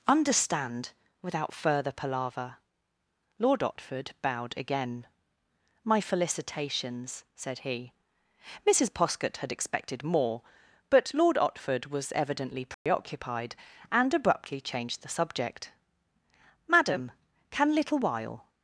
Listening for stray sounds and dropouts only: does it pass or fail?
fail